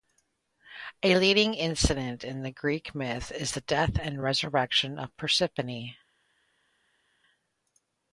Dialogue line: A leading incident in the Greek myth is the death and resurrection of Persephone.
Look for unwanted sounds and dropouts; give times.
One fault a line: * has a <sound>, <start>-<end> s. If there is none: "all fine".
all fine